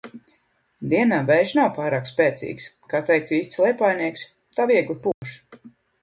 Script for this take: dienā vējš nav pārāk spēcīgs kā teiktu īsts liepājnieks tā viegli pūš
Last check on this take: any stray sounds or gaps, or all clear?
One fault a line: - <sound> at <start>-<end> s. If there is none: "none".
- dropout at 5.1-5.2 s